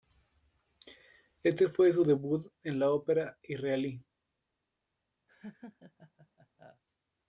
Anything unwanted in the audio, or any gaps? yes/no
yes